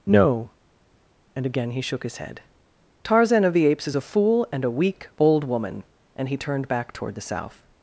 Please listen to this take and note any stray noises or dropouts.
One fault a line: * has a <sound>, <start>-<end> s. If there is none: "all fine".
all fine